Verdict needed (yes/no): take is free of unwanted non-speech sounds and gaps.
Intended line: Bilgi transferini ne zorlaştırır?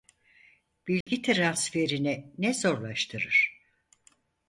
no